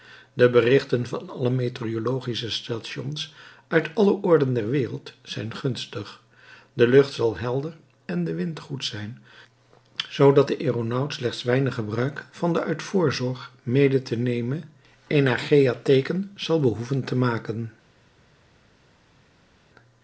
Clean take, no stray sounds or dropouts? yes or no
yes